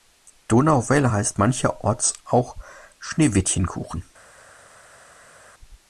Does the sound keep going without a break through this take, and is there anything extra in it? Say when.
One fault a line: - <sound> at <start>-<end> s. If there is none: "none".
none